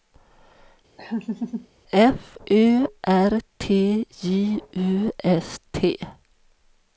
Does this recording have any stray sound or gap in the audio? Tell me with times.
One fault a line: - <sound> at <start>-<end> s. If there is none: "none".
- laugh at 1.0-1.7 s